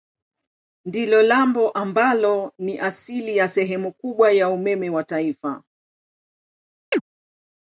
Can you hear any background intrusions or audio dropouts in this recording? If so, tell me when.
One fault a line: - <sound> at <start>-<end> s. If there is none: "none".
- chirp at 6.9-7.0 s